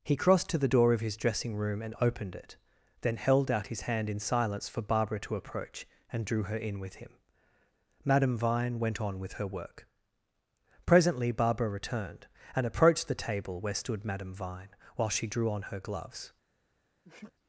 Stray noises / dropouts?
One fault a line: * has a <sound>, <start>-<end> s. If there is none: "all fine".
* has a sneeze, 17.0-17.3 s